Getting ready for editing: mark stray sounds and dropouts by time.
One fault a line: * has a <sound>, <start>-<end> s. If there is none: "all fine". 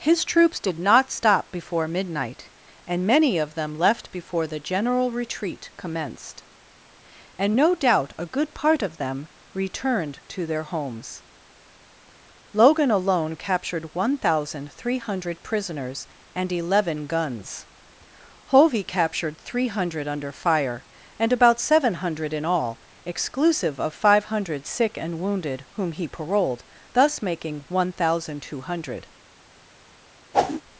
* has a whoosh, 30.3-30.6 s